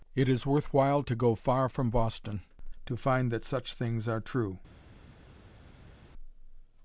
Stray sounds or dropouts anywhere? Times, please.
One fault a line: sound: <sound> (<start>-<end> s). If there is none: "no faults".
no faults